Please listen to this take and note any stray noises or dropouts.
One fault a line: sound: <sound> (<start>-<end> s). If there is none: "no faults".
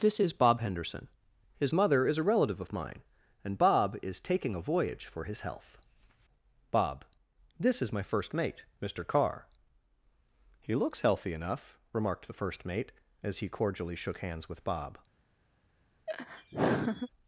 sound: laugh (16.1-17.1 s)